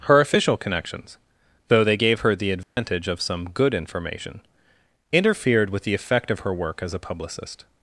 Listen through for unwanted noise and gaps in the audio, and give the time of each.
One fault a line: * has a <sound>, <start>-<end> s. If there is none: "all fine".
* has a dropout, 2.6-2.8 s